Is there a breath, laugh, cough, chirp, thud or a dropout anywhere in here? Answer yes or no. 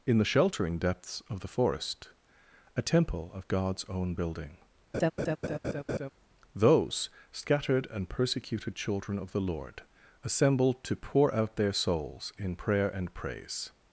yes